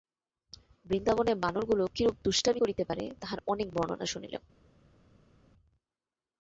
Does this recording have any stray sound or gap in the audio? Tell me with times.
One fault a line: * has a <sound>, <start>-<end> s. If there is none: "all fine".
all fine